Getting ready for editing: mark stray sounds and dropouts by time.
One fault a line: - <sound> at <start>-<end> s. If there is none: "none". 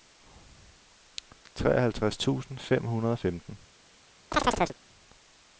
- chirp at 4.3-4.8 s